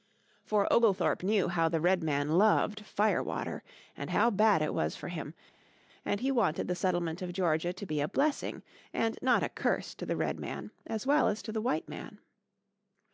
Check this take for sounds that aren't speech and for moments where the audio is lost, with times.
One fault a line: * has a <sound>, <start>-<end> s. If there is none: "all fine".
all fine